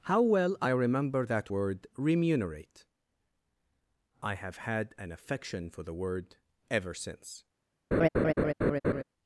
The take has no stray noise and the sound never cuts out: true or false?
false